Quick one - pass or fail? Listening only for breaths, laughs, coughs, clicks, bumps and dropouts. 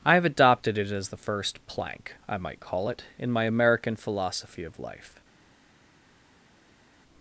pass